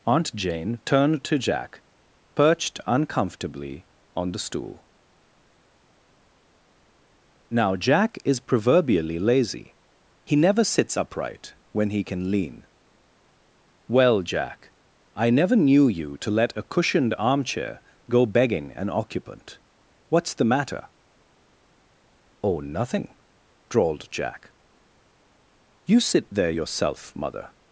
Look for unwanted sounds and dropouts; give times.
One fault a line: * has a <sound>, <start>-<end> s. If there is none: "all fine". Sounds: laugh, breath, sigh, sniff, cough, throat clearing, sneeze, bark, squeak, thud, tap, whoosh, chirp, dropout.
all fine